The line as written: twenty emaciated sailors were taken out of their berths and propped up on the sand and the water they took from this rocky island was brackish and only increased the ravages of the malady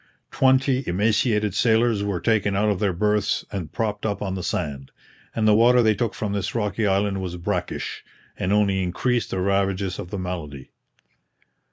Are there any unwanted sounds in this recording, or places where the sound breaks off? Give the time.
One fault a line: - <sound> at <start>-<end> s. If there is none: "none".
none